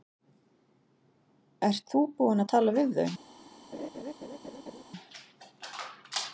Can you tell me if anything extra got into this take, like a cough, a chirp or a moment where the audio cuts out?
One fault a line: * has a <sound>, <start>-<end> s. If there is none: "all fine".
* has a laugh, 3.7-4.8 s